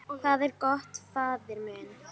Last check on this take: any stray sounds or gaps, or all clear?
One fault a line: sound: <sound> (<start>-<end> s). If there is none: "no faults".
no faults